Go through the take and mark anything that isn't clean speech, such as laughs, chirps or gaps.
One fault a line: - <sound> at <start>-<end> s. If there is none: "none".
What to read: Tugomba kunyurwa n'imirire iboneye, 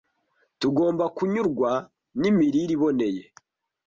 none